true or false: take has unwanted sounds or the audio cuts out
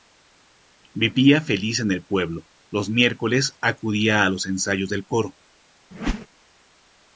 true